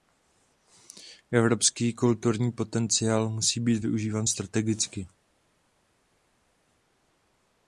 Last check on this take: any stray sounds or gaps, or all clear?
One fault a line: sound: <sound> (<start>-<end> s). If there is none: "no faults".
no faults